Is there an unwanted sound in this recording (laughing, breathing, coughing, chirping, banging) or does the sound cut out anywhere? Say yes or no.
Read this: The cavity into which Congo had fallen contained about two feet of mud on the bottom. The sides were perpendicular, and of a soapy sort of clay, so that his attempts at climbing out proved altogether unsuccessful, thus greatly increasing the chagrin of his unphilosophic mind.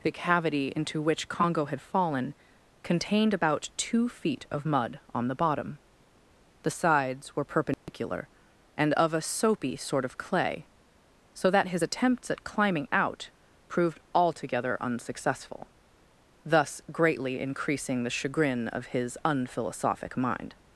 yes